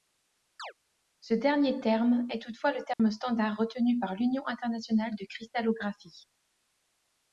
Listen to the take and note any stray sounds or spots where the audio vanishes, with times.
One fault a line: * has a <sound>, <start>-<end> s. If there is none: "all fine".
* has a chirp, 0.6-0.7 s
* has a dropout, 2.9-3.0 s